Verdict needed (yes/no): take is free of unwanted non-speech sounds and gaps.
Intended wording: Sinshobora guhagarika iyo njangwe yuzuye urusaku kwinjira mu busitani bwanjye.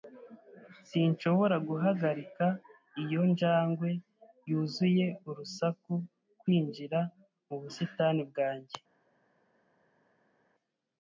yes